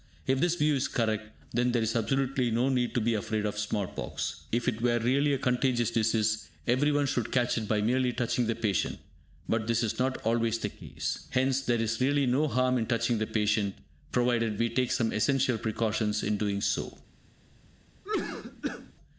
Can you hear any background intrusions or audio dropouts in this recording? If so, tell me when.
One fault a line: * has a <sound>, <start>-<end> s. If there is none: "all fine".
* has a cough, 18.0-18.9 s